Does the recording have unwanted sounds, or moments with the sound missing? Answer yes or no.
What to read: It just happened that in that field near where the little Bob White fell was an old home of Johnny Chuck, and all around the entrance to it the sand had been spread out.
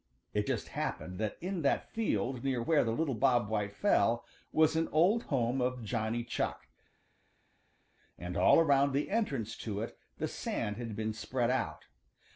no